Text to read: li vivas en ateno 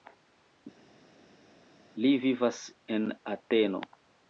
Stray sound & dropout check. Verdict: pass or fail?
pass